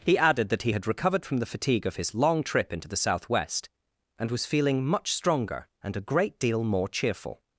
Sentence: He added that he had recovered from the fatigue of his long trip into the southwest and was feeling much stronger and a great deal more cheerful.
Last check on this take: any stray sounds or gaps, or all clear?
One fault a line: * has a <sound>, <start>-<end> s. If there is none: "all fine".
all fine